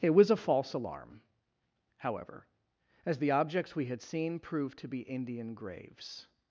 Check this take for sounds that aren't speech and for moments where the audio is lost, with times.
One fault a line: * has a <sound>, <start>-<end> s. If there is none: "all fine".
all fine